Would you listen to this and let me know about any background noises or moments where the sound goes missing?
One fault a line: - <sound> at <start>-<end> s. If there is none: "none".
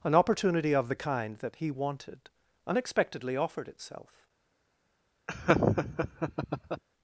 - laugh at 5.3-6.8 s